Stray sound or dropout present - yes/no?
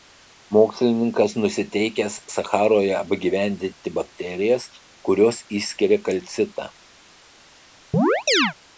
yes